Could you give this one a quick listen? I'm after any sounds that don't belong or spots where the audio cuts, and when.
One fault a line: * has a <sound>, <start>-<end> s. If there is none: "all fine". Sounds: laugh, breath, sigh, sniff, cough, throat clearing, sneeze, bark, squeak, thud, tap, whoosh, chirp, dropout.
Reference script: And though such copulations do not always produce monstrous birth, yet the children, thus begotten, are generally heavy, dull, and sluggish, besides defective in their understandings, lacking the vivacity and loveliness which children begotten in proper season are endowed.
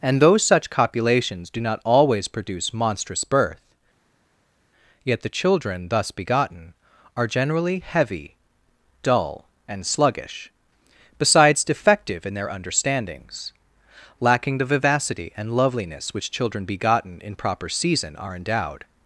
all fine